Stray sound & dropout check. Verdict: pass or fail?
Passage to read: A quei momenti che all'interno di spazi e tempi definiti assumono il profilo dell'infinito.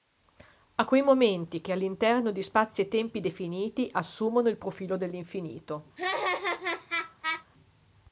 fail